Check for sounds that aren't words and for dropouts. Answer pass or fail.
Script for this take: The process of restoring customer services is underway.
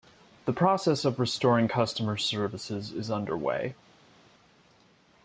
pass